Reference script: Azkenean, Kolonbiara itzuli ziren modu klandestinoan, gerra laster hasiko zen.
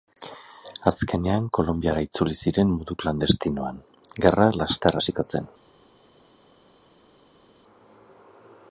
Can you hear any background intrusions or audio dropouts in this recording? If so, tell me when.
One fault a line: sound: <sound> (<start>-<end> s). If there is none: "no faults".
no faults